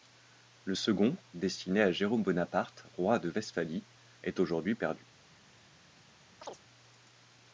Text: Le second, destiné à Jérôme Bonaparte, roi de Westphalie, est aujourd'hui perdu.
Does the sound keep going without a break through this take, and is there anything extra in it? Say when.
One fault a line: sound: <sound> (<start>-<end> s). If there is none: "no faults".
sound: chirp (6.4-6.6 s)